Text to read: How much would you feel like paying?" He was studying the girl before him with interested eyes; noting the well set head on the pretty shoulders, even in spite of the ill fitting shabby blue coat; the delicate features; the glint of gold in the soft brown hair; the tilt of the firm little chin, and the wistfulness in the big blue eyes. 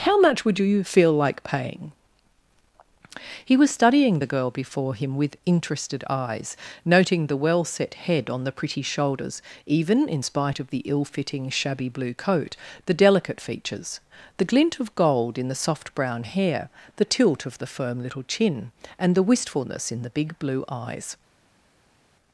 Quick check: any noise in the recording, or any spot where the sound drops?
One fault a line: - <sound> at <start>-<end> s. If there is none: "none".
none